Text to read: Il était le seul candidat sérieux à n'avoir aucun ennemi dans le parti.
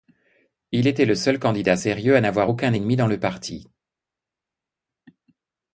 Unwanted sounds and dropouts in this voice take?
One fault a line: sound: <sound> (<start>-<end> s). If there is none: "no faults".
no faults